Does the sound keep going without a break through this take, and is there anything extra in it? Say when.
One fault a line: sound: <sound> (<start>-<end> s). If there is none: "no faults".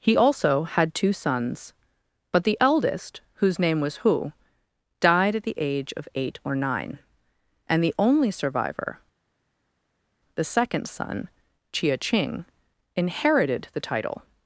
no faults